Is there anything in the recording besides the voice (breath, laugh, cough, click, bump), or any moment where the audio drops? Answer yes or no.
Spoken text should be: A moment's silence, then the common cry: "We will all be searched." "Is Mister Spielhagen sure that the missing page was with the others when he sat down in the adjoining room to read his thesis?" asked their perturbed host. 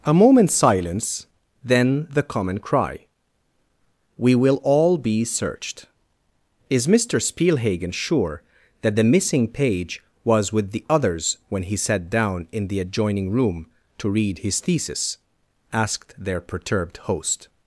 no